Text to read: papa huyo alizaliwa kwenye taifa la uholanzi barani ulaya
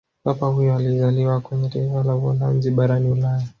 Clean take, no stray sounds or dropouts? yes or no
yes